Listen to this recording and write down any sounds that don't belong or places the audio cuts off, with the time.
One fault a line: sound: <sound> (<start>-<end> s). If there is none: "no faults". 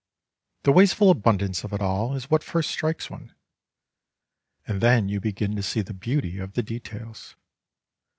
no faults